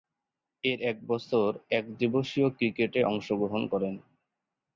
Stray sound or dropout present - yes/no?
no